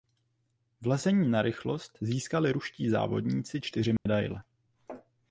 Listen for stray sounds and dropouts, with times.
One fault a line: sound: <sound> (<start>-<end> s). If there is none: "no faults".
sound: dropout (4.0-4.1 s)